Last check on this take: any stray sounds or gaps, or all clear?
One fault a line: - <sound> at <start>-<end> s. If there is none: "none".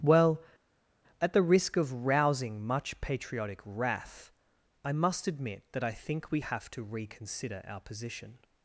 none